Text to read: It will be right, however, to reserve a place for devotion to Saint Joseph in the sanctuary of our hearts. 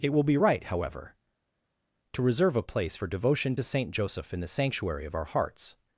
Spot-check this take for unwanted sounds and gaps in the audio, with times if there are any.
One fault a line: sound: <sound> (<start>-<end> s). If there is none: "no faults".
no faults